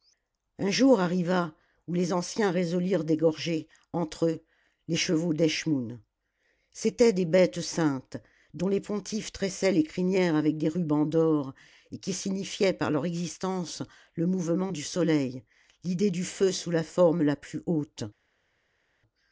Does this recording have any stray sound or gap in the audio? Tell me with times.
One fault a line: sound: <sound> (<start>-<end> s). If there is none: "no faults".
no faults